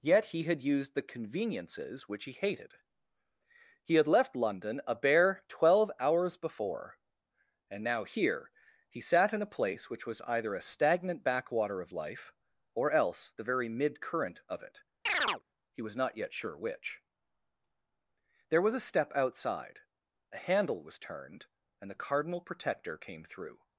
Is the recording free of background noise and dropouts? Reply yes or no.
no